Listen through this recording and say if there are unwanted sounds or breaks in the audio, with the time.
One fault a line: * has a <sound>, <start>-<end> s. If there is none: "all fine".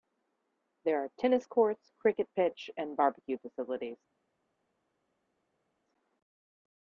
all fine